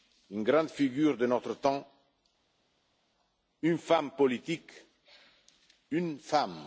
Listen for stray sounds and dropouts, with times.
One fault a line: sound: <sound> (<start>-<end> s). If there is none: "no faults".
no faults